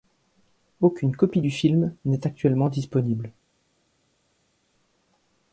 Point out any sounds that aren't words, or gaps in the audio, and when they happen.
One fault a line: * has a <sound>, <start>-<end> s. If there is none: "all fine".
all fine